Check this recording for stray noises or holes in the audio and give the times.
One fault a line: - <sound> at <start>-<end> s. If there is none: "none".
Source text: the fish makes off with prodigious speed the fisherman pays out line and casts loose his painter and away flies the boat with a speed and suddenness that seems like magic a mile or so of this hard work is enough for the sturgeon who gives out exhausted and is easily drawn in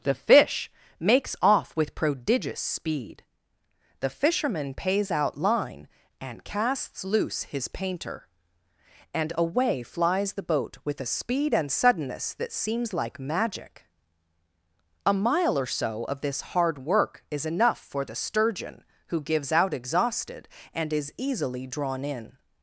none